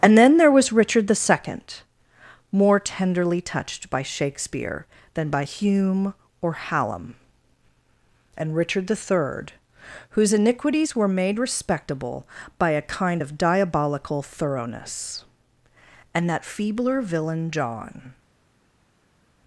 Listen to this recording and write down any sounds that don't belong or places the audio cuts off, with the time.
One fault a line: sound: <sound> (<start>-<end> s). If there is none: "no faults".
no faults